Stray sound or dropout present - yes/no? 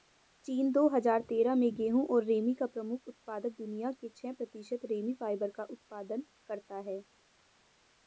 no